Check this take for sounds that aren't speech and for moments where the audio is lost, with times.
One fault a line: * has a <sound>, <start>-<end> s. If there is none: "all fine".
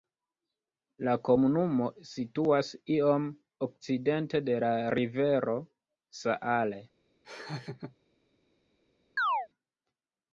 * has a laugh, 7.2-8.0 s
* has a chirp, 9.2-9.5 s